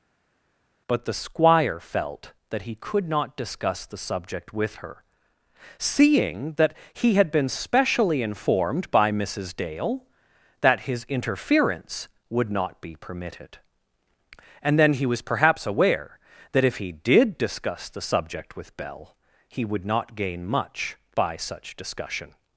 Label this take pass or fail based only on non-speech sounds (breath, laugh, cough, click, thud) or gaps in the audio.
pass